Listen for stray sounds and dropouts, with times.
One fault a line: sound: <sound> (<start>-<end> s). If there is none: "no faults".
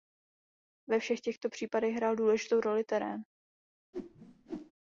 sound: whoosh (3.9-4.7 s)